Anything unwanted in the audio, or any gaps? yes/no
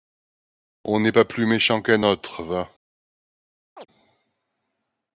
yes